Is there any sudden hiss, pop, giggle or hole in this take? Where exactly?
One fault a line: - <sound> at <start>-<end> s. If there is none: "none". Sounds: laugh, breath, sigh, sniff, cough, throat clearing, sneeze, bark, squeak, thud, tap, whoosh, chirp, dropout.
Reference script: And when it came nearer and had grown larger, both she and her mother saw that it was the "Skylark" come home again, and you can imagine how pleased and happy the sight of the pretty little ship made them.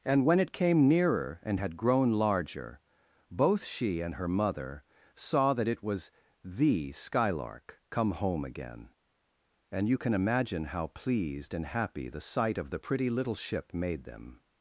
none